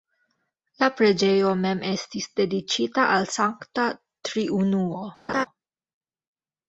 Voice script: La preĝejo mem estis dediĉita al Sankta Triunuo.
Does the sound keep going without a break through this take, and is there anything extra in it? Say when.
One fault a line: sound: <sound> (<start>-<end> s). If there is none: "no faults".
sound: laugh (5.3-5.5 s)